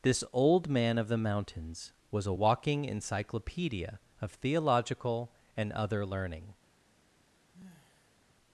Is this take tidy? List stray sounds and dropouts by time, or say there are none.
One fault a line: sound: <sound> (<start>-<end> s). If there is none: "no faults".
sound: sigh (7.5-8.2 s)